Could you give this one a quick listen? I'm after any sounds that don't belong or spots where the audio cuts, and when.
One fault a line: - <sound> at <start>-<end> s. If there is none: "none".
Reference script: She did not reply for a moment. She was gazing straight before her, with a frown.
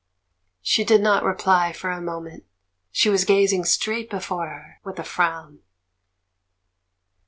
none